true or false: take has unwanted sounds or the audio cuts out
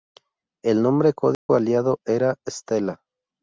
true